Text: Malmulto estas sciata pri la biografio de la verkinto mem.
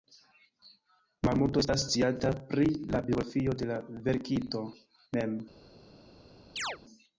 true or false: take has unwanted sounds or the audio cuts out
true